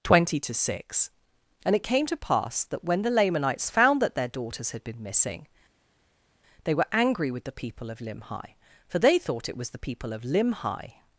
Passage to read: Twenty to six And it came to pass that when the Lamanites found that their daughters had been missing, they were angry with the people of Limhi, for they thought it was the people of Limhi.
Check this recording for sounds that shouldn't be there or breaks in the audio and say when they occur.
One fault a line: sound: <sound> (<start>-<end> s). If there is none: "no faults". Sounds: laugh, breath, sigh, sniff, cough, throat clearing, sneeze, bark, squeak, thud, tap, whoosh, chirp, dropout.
no faults